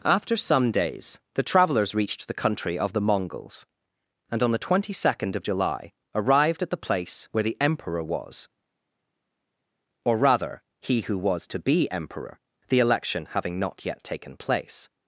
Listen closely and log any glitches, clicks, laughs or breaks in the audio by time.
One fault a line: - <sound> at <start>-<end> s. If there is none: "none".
none